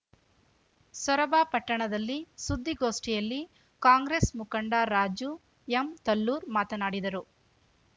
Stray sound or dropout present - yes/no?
no